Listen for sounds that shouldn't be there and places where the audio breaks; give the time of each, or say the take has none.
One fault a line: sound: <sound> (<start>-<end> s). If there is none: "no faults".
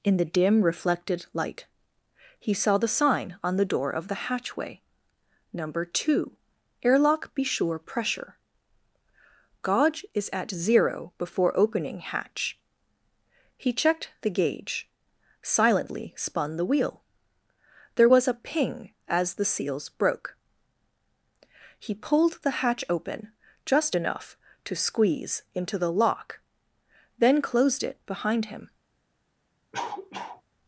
sound: cough (29.7-30.4 s)